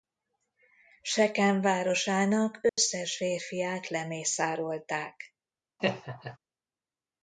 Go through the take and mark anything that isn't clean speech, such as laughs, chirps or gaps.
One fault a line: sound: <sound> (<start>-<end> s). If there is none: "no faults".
sound: dropout (2.7-2.8 s)
sound: laugh (5.8-6.4 s)